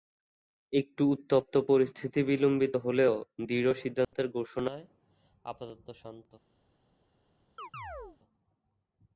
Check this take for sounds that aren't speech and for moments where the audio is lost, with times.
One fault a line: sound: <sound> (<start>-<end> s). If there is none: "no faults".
sound: dropout (4.0-4.1 s)
sound: chirp (7.6-8.2 s)